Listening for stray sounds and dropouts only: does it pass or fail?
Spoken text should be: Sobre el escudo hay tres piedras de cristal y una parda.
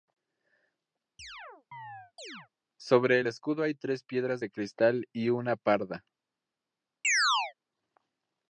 fail